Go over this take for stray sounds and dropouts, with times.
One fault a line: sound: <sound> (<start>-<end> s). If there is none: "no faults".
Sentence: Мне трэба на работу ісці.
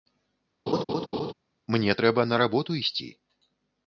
sound: laugh (0.7-1.3 s)